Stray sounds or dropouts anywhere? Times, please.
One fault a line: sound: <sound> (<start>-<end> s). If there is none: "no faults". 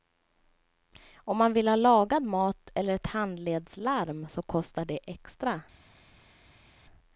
no faults